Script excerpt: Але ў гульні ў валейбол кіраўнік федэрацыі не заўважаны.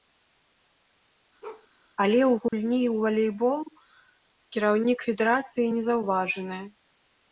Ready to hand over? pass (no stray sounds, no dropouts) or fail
fail